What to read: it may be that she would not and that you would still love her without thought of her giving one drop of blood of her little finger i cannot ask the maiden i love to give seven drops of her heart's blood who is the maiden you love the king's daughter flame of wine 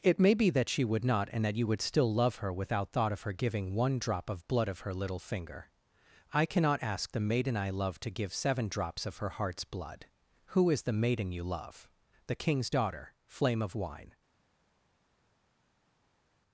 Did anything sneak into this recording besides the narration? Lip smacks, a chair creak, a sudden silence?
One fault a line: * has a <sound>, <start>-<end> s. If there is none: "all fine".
all fine